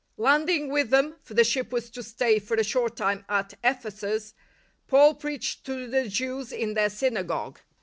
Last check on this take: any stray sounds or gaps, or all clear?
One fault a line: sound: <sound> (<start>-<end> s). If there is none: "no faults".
no faults